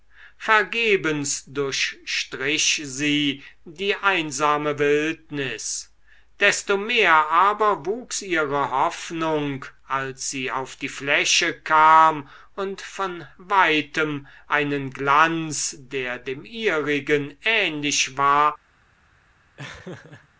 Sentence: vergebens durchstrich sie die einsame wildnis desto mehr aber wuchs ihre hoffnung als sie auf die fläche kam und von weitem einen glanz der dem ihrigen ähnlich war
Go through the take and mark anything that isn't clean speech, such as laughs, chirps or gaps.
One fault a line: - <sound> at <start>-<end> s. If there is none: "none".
- laugh at 19.6-20.3 s